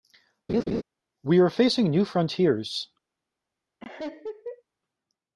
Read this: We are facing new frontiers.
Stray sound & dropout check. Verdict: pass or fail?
fail